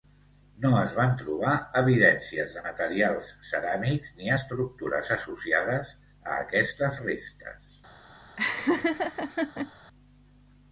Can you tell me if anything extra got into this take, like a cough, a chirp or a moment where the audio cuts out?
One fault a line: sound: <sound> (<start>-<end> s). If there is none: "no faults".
sound: laugh (8.4-9.7 s)